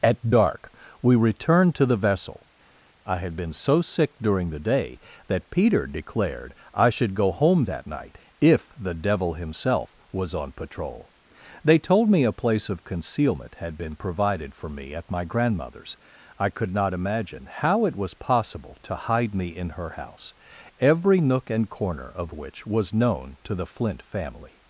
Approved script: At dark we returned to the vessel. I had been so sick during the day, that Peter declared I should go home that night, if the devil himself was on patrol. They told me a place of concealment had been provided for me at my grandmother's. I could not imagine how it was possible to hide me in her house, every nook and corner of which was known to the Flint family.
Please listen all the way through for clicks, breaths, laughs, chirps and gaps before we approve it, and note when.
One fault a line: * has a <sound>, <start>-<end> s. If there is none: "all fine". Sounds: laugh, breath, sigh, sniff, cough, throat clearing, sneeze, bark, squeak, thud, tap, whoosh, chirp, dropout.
all fine